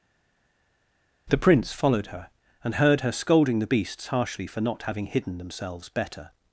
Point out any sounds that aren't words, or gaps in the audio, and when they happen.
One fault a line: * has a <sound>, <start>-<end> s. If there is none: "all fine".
all fine